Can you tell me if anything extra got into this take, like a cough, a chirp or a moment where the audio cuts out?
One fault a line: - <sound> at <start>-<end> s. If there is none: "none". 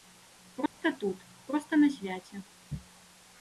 - dropout at 0.7-0.8 s